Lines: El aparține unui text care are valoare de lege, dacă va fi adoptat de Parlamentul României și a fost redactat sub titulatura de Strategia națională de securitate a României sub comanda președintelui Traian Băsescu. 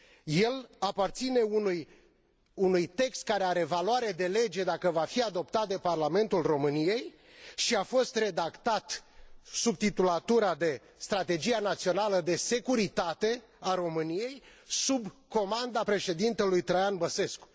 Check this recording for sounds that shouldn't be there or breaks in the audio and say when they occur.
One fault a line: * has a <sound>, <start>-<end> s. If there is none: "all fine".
all fine